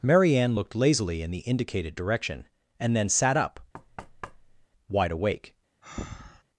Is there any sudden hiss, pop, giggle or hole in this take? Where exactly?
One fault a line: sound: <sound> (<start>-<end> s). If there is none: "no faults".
sound: thud (3.7-4.7 s)
sound: breath (5.8-6.4 s)